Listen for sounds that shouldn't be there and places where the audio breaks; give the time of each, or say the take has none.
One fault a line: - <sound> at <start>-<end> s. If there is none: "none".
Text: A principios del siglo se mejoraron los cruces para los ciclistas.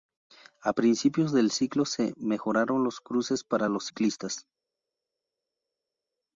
none